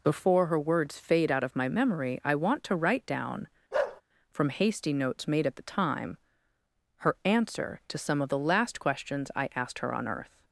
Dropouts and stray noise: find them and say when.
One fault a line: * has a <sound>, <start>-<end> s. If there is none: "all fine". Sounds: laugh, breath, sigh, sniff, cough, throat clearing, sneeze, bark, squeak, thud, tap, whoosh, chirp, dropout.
* has a bark, 3.7-4.0 s